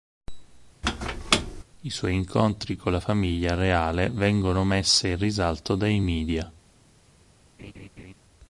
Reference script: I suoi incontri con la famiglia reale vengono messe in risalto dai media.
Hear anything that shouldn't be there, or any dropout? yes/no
yes